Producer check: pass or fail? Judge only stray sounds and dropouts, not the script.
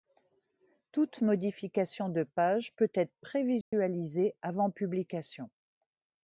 fail